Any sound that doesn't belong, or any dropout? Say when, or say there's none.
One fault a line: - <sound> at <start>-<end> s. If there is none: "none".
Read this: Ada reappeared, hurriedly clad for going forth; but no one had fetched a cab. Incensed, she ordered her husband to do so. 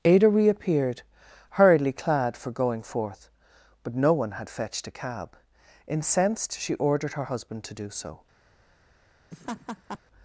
- laugh at 9.3-10.0 s